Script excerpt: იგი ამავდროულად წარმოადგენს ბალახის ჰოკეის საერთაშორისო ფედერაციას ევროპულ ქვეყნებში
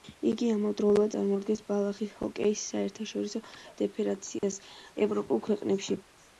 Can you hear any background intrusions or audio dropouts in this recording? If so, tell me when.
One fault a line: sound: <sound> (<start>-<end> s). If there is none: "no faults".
sound: dropout (4.4-4.4 s)